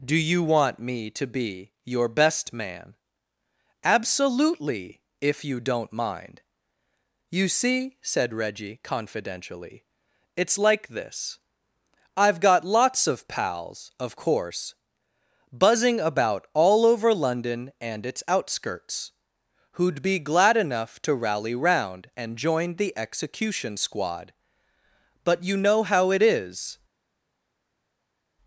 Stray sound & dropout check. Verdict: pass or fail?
pass